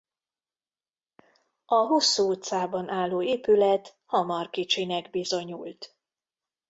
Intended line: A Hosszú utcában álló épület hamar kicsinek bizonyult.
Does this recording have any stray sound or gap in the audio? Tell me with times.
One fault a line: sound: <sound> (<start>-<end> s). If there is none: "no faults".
no faults